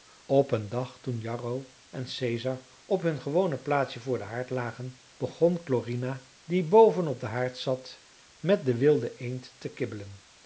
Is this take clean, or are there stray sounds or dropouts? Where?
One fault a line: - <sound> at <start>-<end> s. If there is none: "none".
none